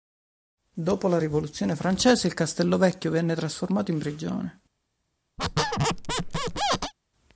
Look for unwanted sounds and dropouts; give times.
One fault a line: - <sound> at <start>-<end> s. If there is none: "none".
- squeak at 5.4-6.9 s